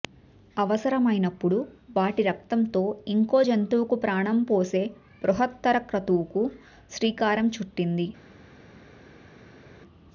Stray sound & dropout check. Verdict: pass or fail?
pass